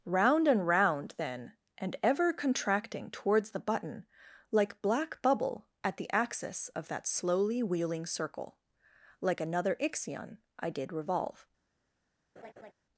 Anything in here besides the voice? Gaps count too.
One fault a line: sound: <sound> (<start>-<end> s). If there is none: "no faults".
sound: laugh (12.4-12.7 s)